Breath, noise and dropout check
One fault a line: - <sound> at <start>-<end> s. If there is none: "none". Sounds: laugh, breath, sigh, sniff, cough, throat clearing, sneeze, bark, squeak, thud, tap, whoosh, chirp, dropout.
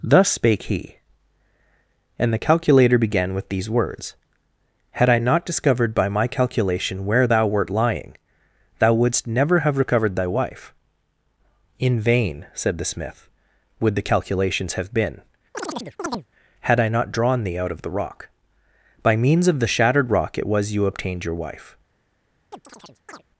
- chirp at 15.5-16.3 s
- chirp at 22.5-23.2 s